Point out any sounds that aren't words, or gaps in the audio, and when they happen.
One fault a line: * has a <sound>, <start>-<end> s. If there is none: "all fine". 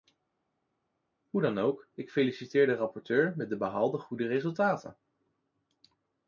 all fine